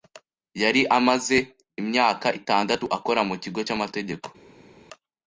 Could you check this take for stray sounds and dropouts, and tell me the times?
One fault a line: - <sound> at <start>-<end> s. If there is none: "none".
none